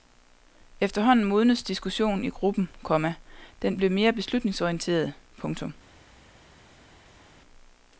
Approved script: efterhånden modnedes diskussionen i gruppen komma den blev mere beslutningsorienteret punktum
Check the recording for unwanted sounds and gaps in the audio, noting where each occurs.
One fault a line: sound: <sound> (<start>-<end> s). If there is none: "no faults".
no faults